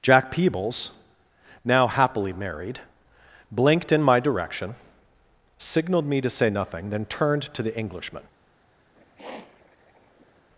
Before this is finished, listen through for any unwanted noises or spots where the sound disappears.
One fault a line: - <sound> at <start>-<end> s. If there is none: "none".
- sniff at 8.9-10.5 s